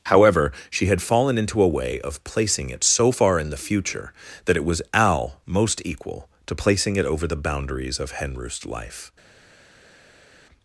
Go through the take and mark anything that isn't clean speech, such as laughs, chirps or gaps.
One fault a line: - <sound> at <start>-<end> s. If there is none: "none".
none